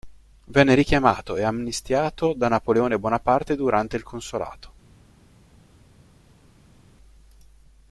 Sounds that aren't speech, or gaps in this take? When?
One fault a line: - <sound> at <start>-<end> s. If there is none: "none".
none